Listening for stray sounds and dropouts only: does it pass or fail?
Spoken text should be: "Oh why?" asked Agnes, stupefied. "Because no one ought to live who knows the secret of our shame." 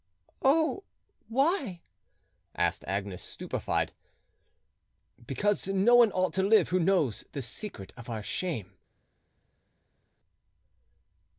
pass